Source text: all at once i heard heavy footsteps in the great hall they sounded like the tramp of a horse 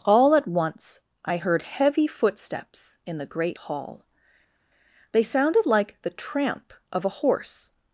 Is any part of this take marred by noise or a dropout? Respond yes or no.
no